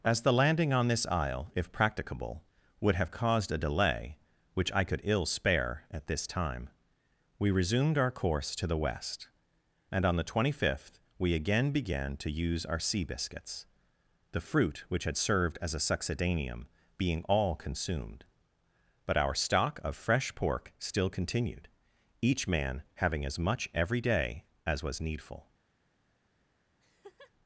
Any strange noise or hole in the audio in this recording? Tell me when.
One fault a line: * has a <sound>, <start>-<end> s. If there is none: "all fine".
* has a laugh, 26.8-27.3 s